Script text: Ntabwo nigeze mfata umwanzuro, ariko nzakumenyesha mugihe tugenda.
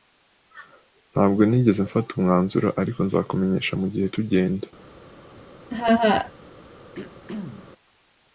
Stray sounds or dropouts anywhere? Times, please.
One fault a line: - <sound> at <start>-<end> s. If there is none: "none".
- laugh at 5.7-6.3 s
- throat clearing at 6.9-7.7 s